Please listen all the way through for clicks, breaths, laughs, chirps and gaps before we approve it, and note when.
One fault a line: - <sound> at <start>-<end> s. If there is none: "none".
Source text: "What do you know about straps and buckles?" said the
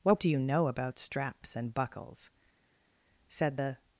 none